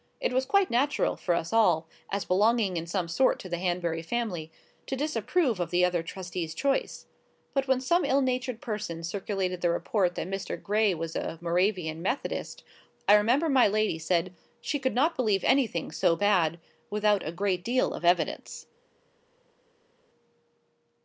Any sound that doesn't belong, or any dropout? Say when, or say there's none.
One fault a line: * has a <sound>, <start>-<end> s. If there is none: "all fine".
all fine